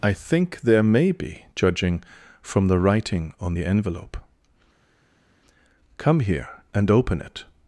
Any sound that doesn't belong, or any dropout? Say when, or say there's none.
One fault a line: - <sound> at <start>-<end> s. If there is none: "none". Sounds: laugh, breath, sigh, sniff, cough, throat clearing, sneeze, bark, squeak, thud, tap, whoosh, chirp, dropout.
none